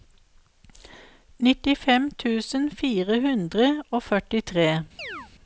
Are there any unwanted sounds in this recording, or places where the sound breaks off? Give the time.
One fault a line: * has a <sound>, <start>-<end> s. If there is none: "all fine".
* has a chirp, 5.0-5.3 s